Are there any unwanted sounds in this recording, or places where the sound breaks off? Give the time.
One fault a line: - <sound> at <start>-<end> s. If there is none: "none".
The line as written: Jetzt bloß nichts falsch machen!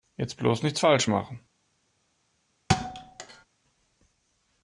- thud at 2.7-3.5 s